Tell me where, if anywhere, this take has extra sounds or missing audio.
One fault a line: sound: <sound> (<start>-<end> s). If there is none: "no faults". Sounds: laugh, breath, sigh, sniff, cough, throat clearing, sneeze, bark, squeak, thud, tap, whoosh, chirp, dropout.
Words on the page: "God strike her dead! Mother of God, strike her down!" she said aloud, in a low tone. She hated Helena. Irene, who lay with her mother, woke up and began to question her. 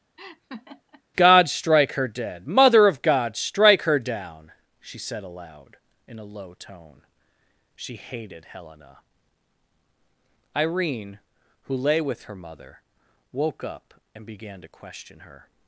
sound: laugh (0.2-1.0 s)